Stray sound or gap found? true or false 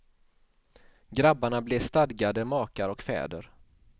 false